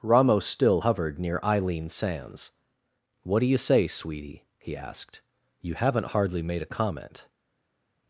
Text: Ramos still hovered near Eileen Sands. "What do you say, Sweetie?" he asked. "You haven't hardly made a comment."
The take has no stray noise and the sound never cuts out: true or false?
true